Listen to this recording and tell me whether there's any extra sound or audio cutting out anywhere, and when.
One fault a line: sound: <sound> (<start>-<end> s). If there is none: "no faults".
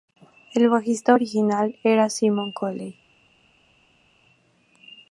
no faults